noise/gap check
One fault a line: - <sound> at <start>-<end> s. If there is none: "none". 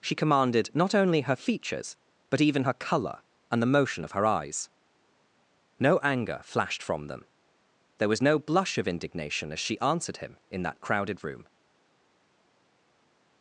none